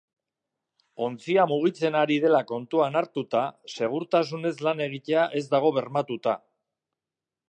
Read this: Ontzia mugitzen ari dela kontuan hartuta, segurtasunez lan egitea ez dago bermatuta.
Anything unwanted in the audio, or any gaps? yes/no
no